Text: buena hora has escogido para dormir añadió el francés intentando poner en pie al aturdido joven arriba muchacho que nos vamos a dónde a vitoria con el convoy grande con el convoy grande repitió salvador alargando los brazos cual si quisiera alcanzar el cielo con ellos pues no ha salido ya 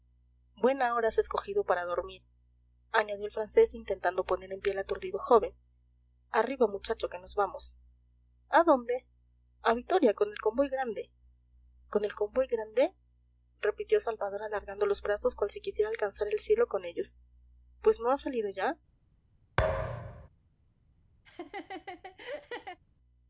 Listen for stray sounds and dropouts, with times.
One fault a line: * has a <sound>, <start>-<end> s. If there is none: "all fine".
* has a thud, 19.6-20.3 s
* has a laugh, 21.2-22.8 s